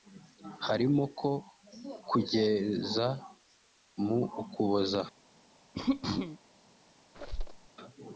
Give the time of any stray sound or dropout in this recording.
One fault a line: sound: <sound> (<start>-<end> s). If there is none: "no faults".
sound: throat clearing (5.7-6.4 s)
sound: squeak (7.1-7.7 s)